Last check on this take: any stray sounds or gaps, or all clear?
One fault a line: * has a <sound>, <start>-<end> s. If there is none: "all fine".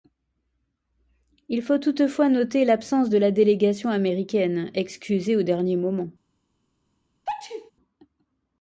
* has a sneeze, 7.3-7.7 s